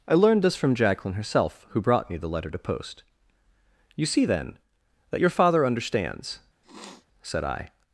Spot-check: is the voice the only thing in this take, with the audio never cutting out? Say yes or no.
no